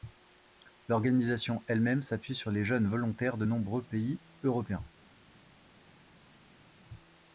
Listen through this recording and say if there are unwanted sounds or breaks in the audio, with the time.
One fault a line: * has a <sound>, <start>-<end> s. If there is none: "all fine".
all fine